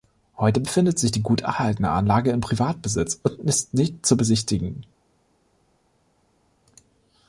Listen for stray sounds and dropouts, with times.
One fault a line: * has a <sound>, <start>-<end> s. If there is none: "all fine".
all fine